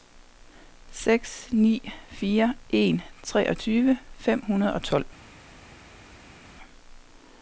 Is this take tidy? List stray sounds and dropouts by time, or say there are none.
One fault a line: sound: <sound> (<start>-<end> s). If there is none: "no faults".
no faults